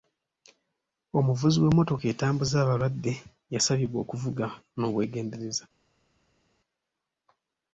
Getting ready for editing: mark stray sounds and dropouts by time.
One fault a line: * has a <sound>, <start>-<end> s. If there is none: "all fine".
all fine